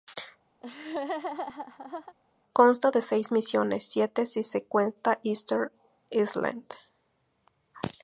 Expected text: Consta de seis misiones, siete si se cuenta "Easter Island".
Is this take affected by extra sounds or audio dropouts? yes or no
yes